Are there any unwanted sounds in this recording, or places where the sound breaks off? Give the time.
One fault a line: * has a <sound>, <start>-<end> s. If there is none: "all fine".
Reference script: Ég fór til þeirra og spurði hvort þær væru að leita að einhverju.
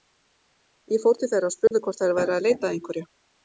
* has a dropout, 1.7-1.7 s